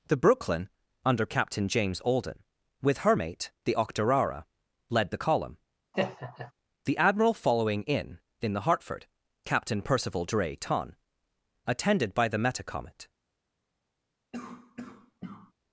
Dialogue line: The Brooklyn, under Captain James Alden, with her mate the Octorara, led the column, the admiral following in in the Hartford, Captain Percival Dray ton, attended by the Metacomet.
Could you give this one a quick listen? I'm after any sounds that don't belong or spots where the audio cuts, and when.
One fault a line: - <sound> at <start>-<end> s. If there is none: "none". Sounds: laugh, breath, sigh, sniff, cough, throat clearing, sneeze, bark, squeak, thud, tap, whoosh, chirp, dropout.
- laugh at 5.9-6.5 s
- cough at 14.3-15.5 s